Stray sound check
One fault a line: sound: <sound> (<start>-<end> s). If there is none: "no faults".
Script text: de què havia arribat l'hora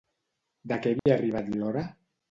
sound: dropout (1.0-1.1 s)